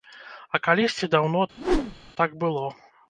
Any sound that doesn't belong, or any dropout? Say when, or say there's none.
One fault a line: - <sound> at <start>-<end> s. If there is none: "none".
- whoosh at 1.6-2.1 s